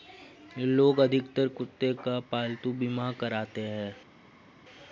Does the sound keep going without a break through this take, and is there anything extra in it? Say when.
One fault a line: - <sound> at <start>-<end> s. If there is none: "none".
none